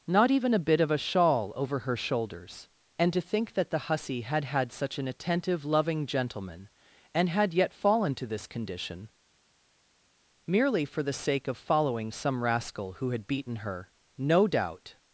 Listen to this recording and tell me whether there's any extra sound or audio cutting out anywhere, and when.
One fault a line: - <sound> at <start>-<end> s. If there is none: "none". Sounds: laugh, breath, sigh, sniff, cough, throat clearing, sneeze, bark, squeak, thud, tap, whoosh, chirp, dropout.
none